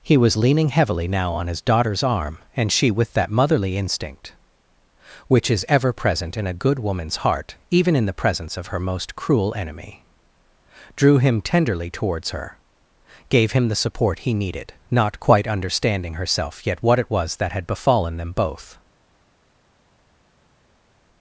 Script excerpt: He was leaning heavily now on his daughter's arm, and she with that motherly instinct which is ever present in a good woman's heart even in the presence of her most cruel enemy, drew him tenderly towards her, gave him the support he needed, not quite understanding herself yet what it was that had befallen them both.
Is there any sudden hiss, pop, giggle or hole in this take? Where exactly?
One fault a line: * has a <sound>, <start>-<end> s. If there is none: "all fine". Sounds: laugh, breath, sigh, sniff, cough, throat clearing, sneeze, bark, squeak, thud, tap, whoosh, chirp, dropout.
all fine